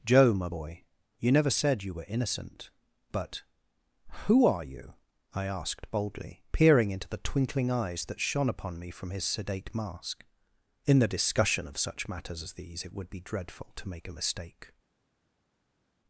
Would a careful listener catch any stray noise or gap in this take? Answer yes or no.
no